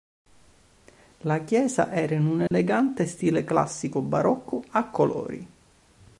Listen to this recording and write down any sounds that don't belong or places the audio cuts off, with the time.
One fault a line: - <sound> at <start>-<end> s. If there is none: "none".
- dropout at 2.5-2.5 s